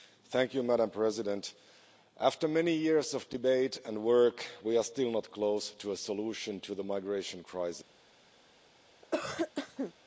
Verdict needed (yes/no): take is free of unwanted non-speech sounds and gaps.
no